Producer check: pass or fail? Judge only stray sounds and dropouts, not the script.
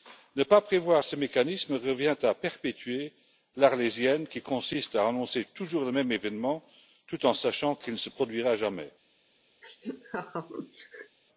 fail